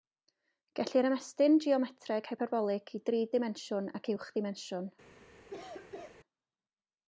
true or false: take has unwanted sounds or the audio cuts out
true